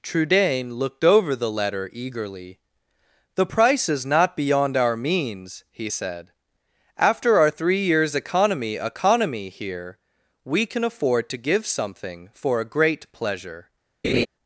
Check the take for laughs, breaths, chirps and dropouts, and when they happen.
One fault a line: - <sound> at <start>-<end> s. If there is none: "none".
- laugh at 14.0-14.3 s